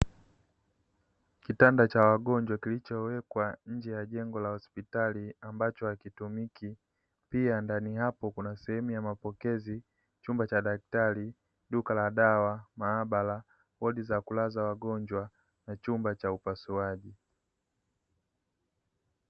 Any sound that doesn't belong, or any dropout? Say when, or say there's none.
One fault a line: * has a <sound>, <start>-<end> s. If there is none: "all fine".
all fine